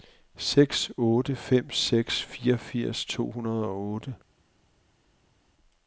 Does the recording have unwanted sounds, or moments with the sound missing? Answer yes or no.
no